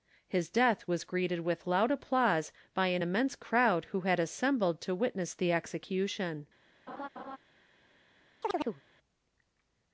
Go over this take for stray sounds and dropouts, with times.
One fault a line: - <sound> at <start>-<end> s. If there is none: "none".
- laugh at 6.9-7.4 s
- chirp at 8.4-8.8 s